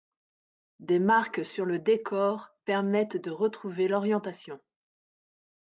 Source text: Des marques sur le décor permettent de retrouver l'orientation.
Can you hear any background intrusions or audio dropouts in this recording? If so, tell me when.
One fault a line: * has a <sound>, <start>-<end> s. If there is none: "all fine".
all fine